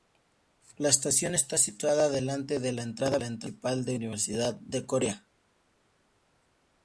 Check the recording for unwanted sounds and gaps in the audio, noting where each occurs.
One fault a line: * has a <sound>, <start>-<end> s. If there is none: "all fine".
all fine